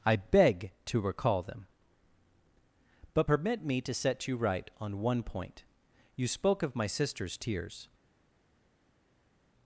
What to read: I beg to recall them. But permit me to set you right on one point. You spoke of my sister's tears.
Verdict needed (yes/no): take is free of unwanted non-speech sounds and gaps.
yes